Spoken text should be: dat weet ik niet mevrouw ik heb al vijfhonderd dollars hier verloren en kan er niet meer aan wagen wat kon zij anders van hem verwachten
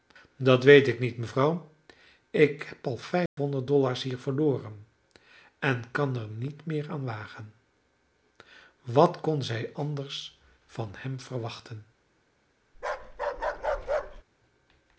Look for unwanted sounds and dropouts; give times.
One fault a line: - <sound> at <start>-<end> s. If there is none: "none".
- dropout at 3.3-3.4 s
- bark at 12.7-14.2 s